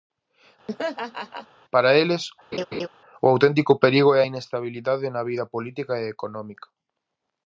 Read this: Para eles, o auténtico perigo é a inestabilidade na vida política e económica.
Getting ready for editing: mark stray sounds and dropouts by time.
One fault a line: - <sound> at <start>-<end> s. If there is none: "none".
- laugh at 0.7-1.5 s
- laugh at 2.5-2.9 s